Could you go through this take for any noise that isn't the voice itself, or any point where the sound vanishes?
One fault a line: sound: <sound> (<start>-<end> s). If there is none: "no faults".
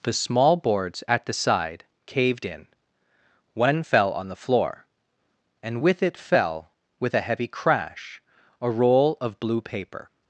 no faults